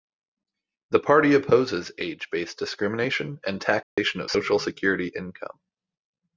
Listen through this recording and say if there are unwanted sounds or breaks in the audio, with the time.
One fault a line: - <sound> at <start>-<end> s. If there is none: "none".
- dropout at 3.8-4.0 s